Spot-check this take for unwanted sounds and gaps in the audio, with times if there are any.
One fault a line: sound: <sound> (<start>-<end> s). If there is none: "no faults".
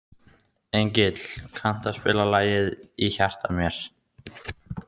no faults